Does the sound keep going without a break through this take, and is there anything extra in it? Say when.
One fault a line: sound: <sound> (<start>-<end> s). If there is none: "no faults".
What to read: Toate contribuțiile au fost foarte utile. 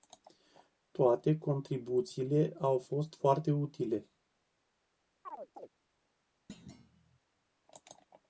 sound: chirp (5.2-5.7 s)
sound: thud (6.5-7.2 s)